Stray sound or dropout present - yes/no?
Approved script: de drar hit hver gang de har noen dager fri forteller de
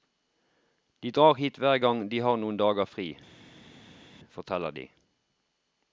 no